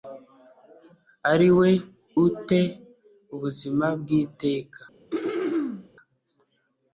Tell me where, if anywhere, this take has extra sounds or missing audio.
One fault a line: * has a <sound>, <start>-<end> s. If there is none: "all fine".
* has a throat clearing, 5.1-5.9 s